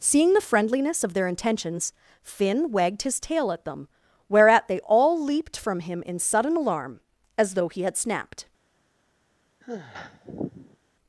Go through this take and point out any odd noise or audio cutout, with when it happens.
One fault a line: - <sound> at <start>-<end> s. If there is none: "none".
- sigh at 9.6-10.8 s